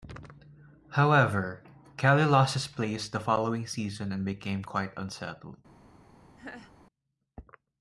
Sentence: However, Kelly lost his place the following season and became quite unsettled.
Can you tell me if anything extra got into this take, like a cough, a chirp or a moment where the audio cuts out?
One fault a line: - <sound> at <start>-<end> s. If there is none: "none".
- laugh at 6.4-6.7 s